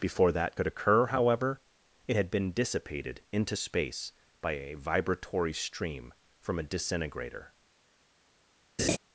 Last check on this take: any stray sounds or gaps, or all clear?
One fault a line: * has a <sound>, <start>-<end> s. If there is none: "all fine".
* has a laugh, 8.8-9.0 s